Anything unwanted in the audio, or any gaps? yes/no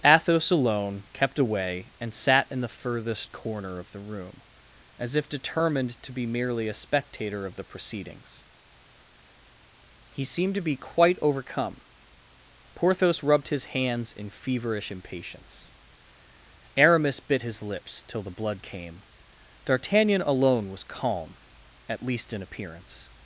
no